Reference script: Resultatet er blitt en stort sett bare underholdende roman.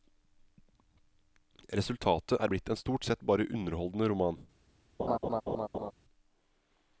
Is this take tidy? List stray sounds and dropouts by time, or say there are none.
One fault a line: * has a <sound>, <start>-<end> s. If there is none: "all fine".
* has a laugh, 5.0-5.9 s